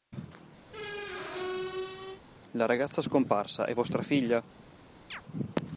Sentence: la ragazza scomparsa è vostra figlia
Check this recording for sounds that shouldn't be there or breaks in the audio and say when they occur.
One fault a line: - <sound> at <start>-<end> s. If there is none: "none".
- squeak at 0.7-2.2 s
- chirp at 5.1-5.2 s